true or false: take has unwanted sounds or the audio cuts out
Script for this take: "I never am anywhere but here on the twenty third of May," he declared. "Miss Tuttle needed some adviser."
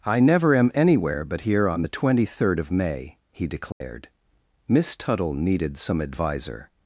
true